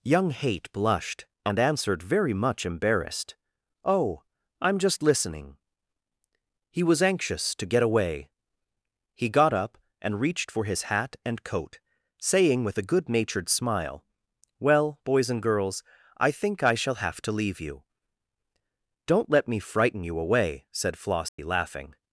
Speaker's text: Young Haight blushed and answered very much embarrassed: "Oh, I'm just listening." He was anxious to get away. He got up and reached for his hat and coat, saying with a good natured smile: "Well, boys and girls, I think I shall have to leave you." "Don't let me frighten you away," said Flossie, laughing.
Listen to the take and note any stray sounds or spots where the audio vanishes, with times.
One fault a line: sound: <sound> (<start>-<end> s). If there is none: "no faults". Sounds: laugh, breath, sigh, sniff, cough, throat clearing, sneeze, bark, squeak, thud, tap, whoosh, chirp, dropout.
sound: dropout (21.3-21.4 s)